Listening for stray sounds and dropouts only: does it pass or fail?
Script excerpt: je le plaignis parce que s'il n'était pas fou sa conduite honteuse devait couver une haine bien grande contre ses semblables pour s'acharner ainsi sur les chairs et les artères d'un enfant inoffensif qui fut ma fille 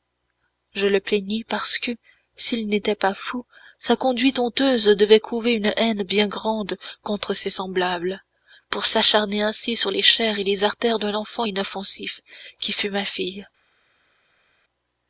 pass